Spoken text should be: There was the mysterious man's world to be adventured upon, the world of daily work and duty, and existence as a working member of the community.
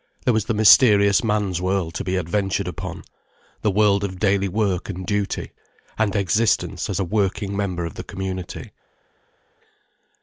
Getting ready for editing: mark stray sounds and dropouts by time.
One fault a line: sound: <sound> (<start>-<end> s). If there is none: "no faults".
no faults